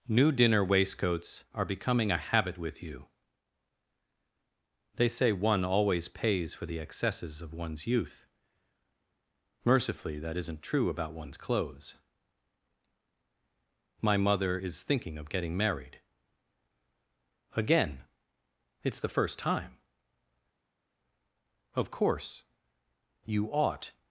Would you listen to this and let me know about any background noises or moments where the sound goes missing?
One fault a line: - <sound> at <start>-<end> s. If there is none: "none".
none